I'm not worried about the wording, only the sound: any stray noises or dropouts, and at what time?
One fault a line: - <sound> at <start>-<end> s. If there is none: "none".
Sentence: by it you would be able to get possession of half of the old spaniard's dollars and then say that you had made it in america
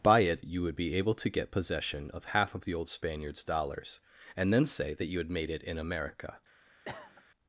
- cough at 6.9-7.2 s